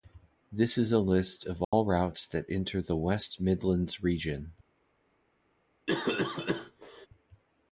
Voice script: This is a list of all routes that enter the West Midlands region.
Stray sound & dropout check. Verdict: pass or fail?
fail